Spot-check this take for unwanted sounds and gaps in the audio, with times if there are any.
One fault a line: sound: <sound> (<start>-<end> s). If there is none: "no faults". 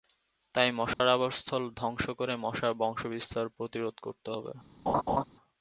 sound: dropout (0.9-1.0 s)
sound: laugh (4.9-5.2 s)